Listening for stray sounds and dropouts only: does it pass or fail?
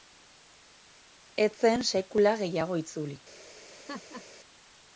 fail